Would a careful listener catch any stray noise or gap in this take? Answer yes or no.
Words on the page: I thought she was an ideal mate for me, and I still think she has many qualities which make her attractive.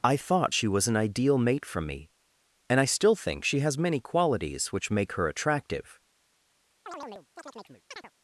yes